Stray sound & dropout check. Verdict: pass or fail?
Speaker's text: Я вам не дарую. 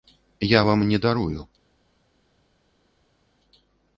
pass